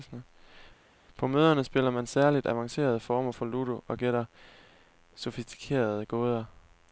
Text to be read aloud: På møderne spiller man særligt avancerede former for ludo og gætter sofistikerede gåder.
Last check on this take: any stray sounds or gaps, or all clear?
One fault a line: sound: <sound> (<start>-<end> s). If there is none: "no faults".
no faults